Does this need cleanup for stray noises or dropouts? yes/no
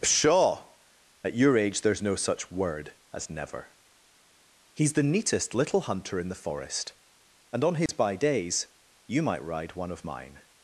yes